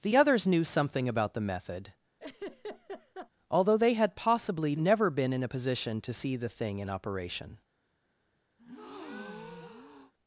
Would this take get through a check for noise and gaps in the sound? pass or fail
fail